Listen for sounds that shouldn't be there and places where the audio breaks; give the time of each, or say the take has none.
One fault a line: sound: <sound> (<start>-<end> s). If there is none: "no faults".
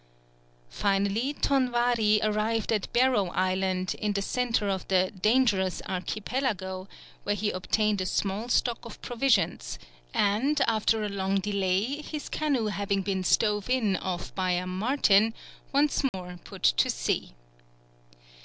sound: dropout (16.1-16.1 s)